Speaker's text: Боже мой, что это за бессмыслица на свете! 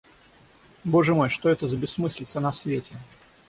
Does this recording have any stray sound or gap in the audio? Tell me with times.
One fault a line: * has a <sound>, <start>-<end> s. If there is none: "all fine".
all fine